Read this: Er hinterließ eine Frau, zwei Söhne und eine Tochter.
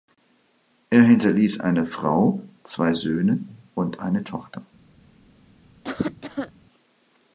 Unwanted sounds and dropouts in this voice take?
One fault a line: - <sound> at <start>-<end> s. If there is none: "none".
- cough at 5.8-6.5 s